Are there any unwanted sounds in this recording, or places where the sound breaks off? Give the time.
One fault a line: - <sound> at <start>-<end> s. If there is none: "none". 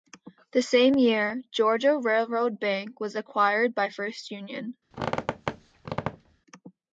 - squeak at 4.9-6.4 s